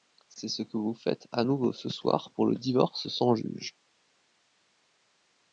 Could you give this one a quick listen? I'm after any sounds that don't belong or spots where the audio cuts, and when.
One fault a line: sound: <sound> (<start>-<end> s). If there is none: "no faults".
no faults